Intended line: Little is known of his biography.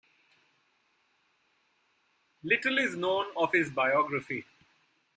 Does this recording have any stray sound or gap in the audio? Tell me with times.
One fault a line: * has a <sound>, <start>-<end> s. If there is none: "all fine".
all fine